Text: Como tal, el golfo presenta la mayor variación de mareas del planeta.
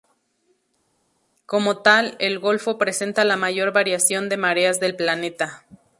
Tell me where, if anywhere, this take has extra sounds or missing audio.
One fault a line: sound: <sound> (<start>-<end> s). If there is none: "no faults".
no faults